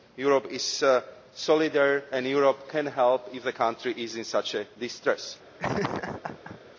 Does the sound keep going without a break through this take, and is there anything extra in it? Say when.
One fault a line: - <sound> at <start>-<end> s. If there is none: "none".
- laugh at 5.6-6.6 s